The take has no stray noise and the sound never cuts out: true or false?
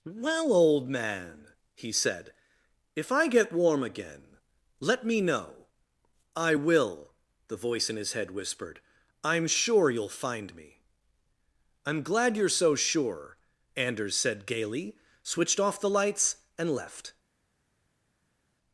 true